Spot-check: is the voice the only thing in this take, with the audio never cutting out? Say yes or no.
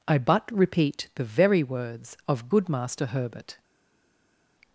yes